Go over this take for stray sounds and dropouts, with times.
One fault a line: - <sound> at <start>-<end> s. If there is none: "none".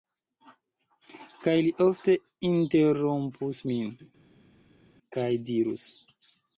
none